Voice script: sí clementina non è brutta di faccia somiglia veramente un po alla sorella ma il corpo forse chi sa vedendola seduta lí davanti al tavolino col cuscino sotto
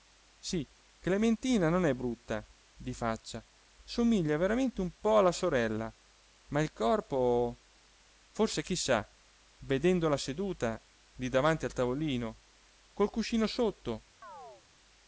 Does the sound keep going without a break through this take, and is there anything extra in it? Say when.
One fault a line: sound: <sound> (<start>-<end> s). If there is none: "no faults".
sound: chirp (14.2-14.6 s)